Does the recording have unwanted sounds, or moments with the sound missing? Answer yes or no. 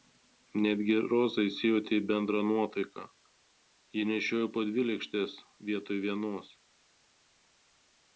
no